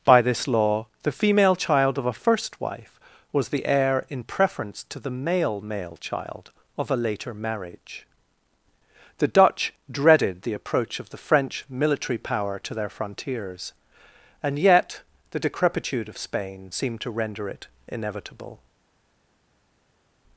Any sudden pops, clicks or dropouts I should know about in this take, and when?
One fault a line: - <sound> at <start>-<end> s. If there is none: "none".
none